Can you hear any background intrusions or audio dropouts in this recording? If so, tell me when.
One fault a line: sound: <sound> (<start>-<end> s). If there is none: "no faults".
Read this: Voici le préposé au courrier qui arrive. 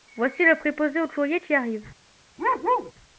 sound: bark (2.4-2.9 s)